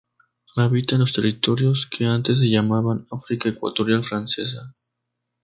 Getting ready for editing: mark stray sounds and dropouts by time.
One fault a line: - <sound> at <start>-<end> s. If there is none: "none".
none